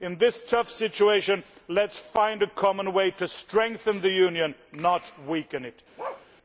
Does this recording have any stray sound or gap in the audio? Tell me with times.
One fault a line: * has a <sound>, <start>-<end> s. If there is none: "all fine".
* has a bark, 6.0-6.3 s